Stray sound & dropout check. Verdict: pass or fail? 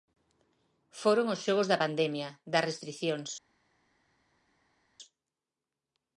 pass